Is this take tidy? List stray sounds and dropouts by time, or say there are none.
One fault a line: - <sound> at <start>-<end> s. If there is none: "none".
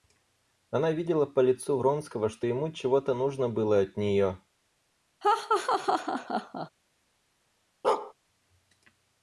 - laugh at 5.2-6.7 s
- bark at 7.8-8.1 s